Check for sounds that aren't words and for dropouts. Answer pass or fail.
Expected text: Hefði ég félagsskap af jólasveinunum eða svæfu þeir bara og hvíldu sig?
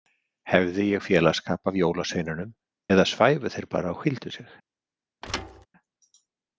fail